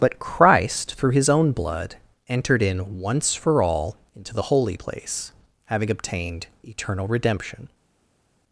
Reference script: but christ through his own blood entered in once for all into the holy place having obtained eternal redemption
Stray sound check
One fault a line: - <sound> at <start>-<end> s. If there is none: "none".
none